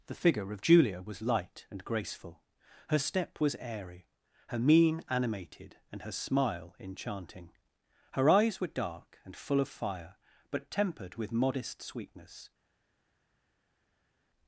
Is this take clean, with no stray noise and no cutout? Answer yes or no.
yes